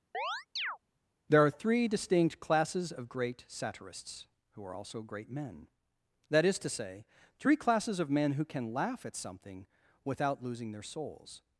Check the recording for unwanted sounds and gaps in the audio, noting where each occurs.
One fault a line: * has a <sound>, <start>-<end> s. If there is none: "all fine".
* has a chirp, 0.1-0.8 s